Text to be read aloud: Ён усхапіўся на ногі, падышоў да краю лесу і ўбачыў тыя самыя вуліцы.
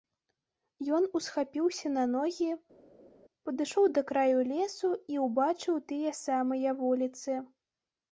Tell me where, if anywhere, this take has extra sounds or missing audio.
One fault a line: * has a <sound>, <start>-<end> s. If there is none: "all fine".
all fine